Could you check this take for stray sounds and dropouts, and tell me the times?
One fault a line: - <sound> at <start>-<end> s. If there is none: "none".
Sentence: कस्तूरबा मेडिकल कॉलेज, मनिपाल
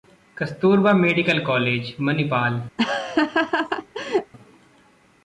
- laugh at 2.8-4.3 s